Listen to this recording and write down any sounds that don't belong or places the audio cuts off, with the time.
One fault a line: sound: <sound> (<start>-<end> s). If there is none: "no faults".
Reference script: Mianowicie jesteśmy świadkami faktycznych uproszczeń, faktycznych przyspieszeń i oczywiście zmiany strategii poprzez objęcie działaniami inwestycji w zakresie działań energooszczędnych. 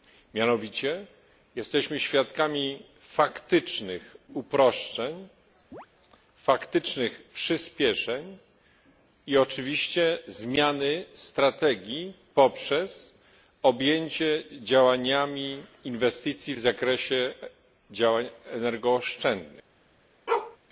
sound: chirp (5.7-5.9 s)
sound: bark (20.3-20.6 s)